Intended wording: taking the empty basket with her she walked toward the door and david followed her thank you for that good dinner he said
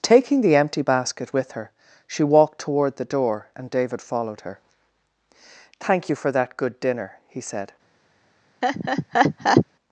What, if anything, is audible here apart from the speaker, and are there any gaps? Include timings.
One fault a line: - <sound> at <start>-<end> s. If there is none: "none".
- laugh at 8.6-9.7 s